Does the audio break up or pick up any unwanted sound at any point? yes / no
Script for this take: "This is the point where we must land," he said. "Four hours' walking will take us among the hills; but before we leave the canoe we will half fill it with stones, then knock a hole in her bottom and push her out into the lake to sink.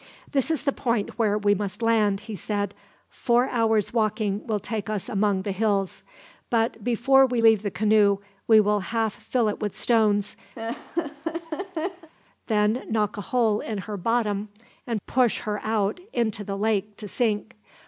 yes